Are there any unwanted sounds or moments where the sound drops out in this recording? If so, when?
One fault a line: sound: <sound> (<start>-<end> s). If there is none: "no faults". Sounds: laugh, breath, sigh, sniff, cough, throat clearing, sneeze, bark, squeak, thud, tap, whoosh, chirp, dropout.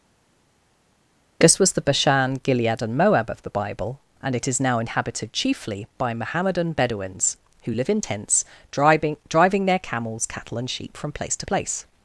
no faults